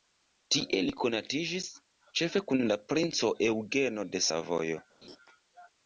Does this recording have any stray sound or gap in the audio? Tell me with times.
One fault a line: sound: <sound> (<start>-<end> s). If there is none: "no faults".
sound: laugh (5.0-5.2 s)